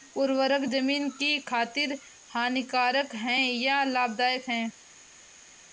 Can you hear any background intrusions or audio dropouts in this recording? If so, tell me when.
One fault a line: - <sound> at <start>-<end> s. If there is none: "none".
none